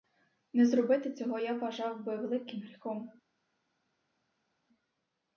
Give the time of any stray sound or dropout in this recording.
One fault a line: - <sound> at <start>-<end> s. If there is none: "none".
none